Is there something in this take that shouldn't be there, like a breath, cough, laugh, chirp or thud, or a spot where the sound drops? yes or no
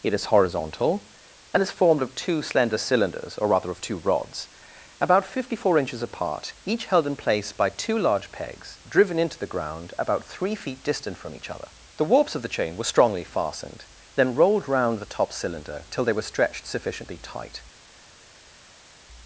no